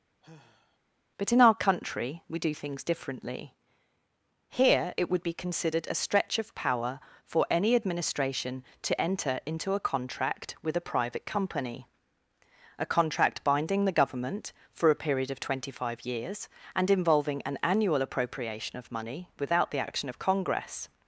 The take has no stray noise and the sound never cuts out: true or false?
false